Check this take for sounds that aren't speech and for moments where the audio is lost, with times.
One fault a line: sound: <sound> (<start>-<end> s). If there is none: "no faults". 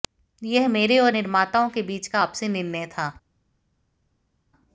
no faults